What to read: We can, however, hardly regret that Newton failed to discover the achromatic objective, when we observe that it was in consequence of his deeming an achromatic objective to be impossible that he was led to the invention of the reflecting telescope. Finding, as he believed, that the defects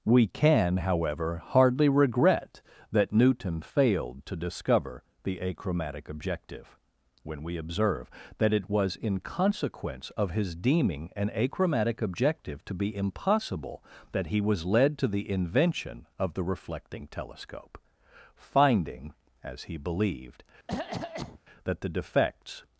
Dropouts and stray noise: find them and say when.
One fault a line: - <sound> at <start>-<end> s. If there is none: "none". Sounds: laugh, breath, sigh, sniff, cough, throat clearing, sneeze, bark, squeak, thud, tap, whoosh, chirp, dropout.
- cough at 20.7-21.4 s